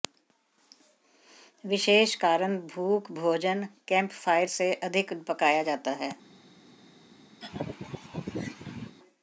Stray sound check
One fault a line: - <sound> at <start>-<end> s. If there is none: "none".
- laugh at 7.4-9.0 s